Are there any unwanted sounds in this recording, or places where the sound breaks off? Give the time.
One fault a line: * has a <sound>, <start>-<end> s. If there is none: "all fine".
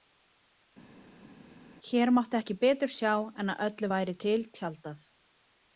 all fine